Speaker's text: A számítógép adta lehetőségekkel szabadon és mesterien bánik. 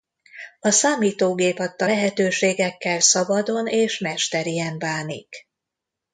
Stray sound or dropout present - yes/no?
no